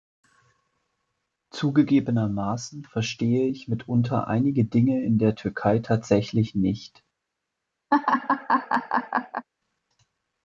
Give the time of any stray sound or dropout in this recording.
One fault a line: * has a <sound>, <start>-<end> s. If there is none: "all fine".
* has a laugh, 7.9-9.5 s